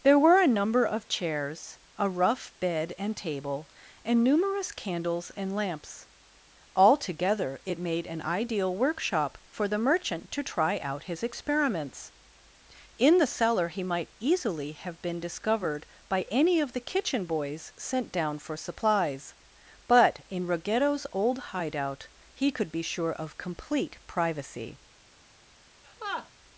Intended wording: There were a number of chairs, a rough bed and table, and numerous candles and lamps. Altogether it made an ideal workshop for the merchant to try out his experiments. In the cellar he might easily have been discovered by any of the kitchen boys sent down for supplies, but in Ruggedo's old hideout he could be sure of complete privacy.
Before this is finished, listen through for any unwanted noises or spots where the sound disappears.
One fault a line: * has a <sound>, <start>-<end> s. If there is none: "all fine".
* has a laugh, 25.8-26.3 s